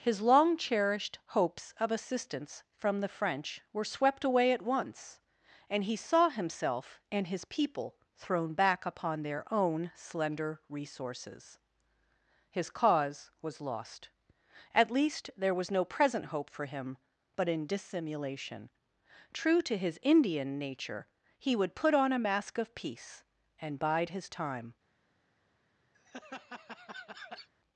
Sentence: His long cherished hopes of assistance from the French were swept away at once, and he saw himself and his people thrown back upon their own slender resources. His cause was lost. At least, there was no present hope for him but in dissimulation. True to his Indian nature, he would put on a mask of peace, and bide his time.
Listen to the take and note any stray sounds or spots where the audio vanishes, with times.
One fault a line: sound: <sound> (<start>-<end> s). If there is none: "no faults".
sound: laugh (25.9-27.5 s)